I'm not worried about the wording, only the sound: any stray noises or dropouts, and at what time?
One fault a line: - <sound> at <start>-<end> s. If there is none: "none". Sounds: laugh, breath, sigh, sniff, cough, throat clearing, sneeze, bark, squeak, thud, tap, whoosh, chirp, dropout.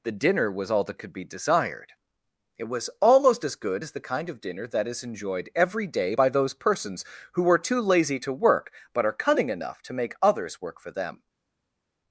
none